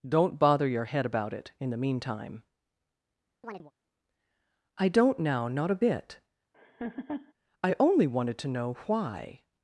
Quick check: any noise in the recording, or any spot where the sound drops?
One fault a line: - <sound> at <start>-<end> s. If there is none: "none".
- chirp at 3.4-3.7 s
- laugh at 6.5-7.3 s